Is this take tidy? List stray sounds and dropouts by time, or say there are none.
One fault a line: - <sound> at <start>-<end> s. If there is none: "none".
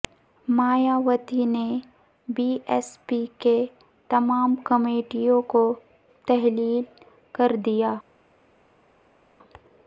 none